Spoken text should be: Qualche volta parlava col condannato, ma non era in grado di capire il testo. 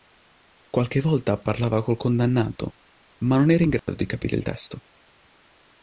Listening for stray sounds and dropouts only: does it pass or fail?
fail